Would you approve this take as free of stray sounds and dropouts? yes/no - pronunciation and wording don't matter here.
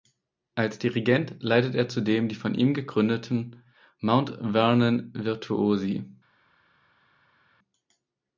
yes